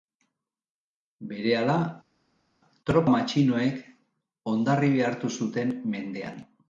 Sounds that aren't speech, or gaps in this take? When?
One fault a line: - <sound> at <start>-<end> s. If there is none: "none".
none